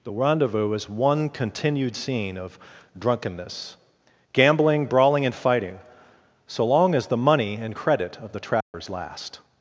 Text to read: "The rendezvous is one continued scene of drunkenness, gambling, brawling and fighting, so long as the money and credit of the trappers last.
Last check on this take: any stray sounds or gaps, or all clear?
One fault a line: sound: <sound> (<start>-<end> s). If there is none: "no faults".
sound: dropout (8.6-8.7 s)